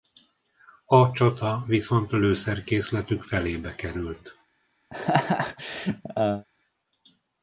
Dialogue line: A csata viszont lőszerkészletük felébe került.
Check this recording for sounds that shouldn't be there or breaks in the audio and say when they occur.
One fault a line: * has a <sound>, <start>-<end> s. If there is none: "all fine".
* has a laugh, 4.9-6.4 s